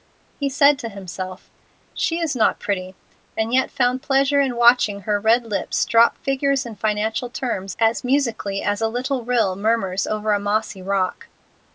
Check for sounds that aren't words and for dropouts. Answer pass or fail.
pass